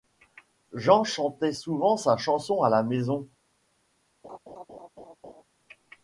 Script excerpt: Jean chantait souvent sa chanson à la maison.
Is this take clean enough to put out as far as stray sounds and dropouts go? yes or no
no